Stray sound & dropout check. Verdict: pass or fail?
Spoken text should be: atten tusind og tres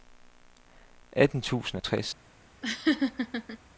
fail